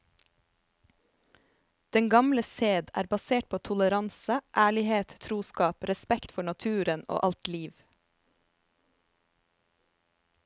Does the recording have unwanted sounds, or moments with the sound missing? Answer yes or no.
no